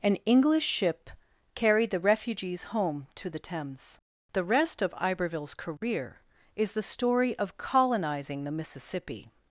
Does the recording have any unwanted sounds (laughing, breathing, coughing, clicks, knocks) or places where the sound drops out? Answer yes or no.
no